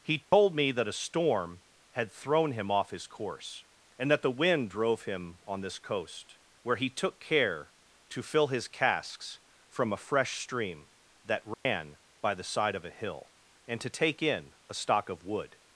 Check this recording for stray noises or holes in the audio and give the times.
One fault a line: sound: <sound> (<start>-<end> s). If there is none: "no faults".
sound: dropout (0.2-0.3 s)
sound: dropout (11.5-11.7 s)